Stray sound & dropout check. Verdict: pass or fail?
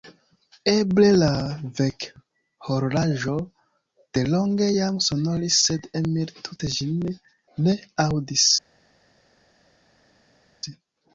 pass